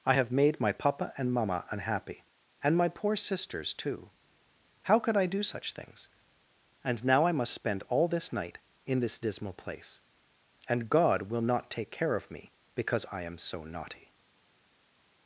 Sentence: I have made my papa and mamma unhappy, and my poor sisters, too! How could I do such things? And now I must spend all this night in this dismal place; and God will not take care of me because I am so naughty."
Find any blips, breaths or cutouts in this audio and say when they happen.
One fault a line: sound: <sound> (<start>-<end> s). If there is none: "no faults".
no faults